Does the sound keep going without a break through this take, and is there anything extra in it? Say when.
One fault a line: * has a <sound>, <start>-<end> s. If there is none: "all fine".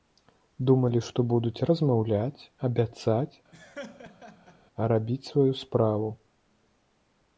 * has a laugh, 3.5-4.6 s